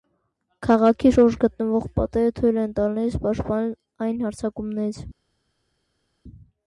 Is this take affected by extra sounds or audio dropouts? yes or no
no